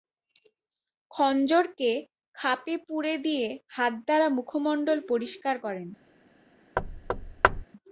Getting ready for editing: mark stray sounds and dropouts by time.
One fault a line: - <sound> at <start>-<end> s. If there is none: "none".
- thud at 6.8-7.6 s